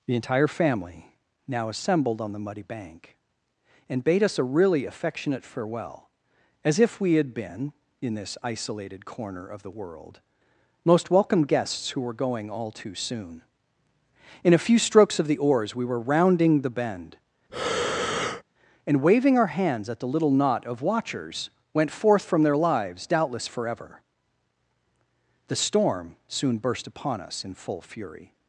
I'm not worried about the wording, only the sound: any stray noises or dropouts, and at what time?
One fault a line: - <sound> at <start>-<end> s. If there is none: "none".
- breath at 17.5-18.4 s